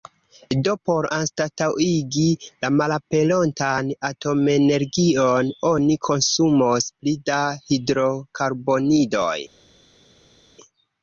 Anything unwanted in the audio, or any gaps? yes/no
no